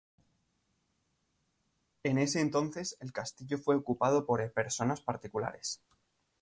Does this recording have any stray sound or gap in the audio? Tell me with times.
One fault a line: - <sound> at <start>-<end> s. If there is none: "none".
none